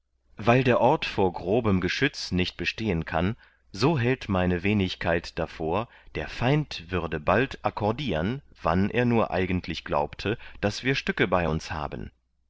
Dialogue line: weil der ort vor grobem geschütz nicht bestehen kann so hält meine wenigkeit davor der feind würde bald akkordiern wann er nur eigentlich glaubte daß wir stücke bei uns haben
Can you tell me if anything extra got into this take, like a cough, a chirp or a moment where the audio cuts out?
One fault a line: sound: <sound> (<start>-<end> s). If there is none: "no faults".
no faults